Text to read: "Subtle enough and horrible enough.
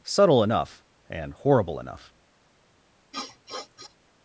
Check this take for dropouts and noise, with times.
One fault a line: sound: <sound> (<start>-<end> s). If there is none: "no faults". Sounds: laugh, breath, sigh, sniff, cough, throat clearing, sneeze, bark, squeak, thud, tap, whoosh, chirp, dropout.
sound: sniff (3.1-4.0 s)